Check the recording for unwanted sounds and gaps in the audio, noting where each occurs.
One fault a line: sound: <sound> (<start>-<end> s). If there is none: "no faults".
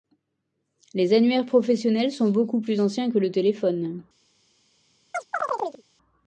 sound: chirp (5.1-5.8 s)